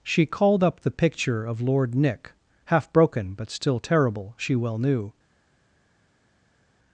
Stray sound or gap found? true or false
false